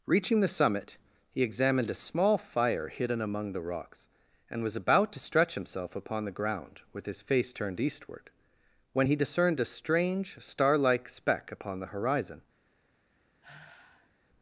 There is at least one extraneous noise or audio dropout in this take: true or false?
true